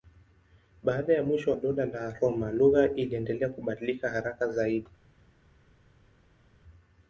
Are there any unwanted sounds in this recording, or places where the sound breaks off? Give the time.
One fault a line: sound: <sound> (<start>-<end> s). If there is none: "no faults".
no faults